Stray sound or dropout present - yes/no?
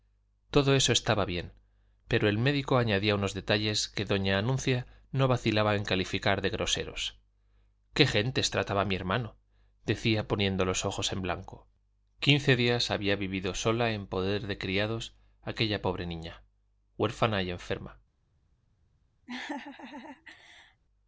yes